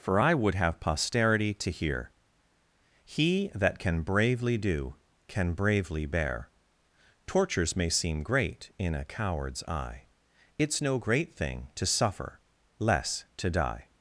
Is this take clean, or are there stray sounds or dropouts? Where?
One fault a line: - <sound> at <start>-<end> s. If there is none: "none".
none